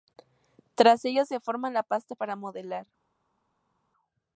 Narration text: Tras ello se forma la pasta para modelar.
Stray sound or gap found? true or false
false